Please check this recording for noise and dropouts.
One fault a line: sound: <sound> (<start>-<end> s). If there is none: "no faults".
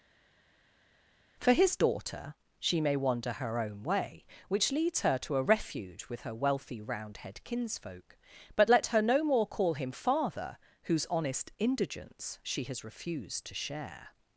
no faults